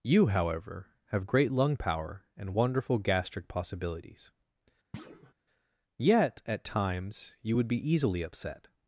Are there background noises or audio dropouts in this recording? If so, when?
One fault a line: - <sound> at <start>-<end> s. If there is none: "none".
- thud at 4.9-5.3 s